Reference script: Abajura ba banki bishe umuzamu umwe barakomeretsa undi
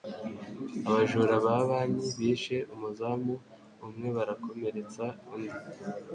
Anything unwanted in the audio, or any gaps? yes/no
no